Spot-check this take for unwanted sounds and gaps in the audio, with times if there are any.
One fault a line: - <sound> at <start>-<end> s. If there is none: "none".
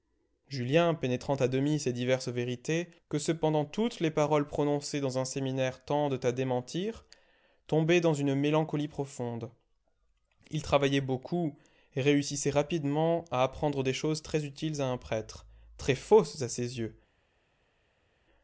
none